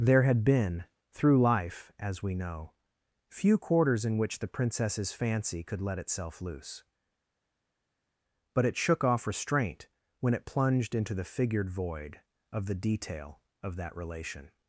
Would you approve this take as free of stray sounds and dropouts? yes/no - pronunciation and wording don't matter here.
yes